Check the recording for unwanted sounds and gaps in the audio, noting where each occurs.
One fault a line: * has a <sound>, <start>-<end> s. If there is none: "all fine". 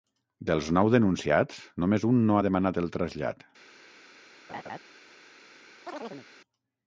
* has a laugh, 4.5-4.8 s
* has a chirp, 5.9-6.3 s